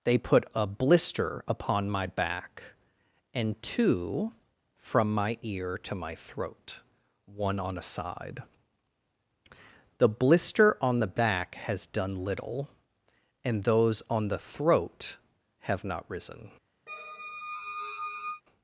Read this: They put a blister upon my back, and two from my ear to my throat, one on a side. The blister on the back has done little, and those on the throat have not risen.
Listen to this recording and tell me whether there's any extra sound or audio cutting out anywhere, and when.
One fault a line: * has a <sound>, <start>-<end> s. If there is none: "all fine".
* has a squeak, 16.9-18.4 s